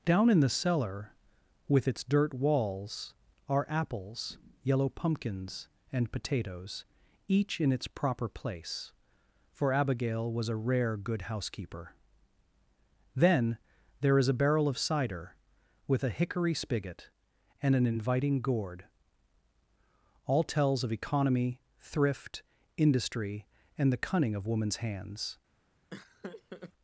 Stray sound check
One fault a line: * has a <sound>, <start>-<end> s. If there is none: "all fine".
* has a laugh, 25.9-26.7 s